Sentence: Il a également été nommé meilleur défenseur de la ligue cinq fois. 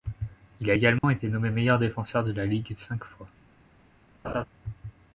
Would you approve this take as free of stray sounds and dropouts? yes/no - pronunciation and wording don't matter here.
no